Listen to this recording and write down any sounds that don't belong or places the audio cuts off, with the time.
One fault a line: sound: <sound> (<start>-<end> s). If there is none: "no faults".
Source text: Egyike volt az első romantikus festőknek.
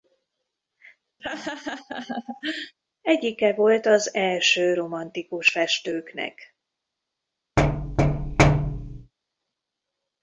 sound: laugh (1.2-2.7 s)
sound: thud (7.6-9.1 s)